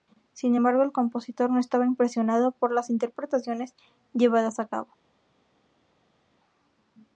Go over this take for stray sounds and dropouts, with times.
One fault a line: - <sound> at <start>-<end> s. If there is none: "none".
none